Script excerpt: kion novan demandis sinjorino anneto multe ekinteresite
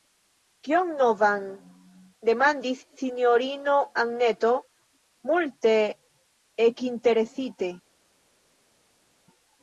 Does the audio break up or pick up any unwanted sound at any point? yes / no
no